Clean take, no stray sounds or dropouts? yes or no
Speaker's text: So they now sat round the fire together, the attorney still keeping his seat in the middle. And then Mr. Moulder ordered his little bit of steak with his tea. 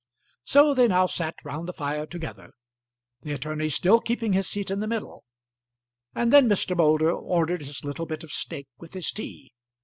yes